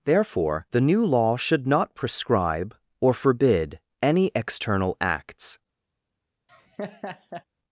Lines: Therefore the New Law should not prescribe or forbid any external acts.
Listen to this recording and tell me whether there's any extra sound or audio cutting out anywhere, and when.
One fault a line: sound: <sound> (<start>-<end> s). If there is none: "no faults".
sound: laugh (6.5-7.4 s)